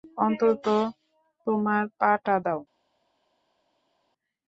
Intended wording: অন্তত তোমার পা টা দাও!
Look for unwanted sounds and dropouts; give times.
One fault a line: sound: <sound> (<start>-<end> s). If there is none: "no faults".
no faults